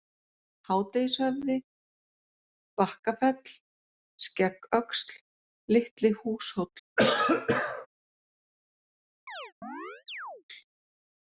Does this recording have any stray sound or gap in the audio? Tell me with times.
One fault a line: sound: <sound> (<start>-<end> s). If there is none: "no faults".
sound: cough (7.0-7.9 s)
sound: chirp (9.3-10.4 s)